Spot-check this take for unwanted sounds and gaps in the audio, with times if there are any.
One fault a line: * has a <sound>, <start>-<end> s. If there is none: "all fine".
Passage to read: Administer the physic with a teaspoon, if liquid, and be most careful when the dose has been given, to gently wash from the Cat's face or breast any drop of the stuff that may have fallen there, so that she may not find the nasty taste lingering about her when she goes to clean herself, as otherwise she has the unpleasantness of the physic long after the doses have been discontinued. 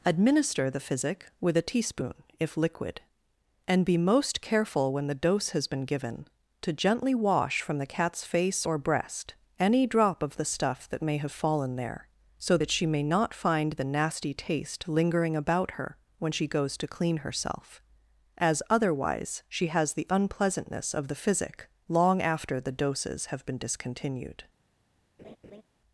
* has a laugh, 25.2-25.6 s